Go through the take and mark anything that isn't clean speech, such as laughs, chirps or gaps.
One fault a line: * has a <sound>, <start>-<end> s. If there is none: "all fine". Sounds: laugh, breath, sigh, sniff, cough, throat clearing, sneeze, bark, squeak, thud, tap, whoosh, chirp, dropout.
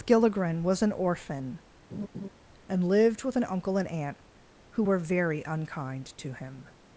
* has a laugh, 1.9-2.3 s